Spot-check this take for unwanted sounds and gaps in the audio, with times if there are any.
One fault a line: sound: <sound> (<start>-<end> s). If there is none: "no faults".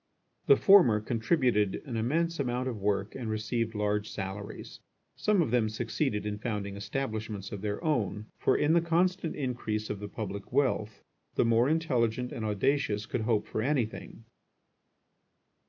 no faults